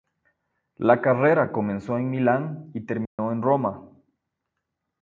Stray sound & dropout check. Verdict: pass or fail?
fail